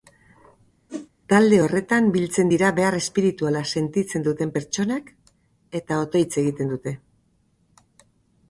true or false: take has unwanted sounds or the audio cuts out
true